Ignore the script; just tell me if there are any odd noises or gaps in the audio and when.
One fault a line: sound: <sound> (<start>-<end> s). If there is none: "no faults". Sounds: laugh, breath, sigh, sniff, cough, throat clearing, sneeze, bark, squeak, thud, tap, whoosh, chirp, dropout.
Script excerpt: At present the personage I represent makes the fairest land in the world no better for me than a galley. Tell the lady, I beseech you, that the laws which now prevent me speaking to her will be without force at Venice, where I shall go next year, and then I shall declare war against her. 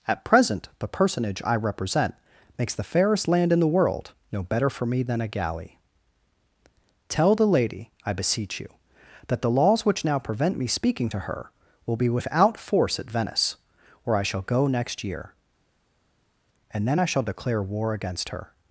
no faults